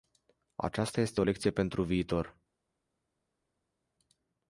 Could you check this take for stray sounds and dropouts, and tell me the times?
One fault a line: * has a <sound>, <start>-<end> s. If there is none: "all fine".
all fine